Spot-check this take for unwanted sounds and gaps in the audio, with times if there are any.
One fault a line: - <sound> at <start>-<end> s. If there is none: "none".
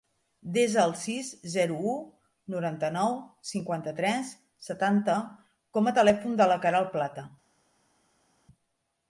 none